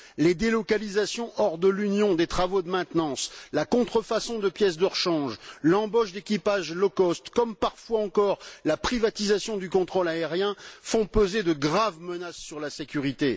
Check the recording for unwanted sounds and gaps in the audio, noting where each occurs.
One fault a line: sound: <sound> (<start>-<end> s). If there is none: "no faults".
no faults